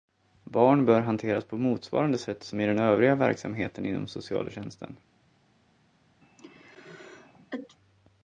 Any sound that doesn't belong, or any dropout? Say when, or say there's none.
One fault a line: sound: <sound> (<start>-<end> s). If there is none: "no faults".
sound: sneeze (6.2-7.8 s)